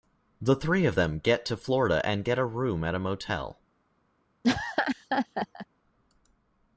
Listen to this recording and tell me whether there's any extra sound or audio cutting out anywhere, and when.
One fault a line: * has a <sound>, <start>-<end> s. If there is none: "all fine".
* has a laugh, 4.4-5.7 s